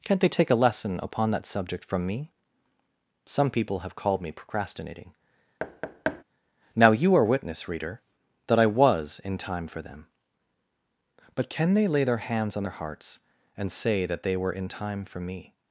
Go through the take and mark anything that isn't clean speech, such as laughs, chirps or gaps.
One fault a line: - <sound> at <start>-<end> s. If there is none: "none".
- thud at 5.6-6.2 s